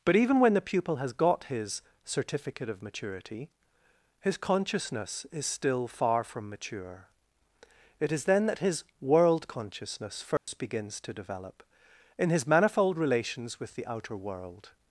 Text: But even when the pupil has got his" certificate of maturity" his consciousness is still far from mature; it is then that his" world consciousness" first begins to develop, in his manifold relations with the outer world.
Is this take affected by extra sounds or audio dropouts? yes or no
yes